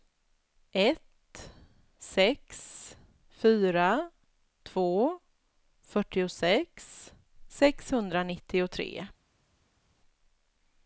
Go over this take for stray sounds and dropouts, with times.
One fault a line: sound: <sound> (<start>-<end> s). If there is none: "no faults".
no faults